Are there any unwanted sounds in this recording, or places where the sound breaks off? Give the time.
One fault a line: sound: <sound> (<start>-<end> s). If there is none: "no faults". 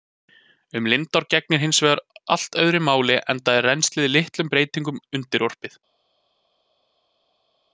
no faults